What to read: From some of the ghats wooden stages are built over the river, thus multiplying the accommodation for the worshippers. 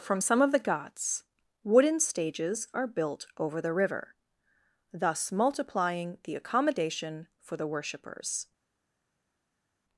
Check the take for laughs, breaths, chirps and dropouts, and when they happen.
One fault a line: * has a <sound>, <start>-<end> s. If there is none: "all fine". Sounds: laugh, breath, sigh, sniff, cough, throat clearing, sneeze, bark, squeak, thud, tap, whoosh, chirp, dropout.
all fine